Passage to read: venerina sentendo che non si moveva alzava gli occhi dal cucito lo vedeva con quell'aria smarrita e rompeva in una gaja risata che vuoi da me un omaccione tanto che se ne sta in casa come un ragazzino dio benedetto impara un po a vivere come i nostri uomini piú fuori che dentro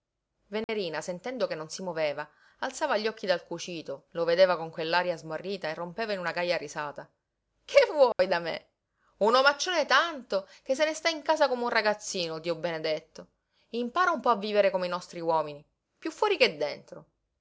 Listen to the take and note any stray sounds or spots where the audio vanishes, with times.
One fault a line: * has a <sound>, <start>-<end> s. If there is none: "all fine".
* has a dropout, 0.6-0.7 s
* has a dropout, 8.1-8.2 s